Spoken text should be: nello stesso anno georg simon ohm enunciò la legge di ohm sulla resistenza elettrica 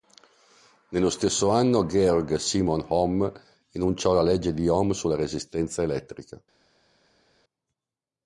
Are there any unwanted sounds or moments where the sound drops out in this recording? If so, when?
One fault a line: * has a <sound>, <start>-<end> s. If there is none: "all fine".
all fine